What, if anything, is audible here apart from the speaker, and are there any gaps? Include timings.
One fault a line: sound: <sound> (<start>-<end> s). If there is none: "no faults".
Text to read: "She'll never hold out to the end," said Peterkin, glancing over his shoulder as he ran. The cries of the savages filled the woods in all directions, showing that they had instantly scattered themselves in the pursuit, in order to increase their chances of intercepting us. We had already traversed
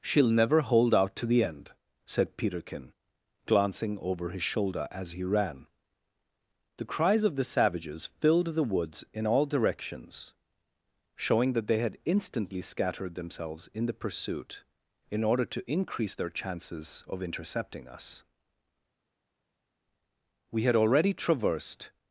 no faults